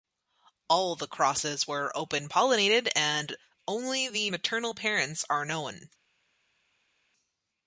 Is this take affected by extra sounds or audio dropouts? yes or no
no